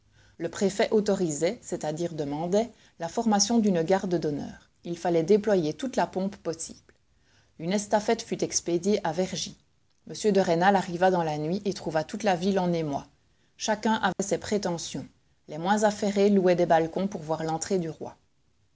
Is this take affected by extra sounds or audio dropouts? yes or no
yes